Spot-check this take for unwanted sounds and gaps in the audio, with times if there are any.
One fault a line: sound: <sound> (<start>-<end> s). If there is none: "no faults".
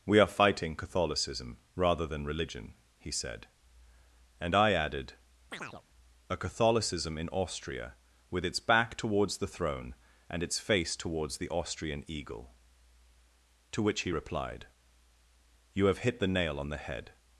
sound: chirp (5.5-5.8 s)